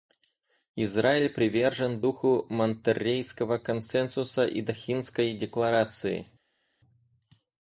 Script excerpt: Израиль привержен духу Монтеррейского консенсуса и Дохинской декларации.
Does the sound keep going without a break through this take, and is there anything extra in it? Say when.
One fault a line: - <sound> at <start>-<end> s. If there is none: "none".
none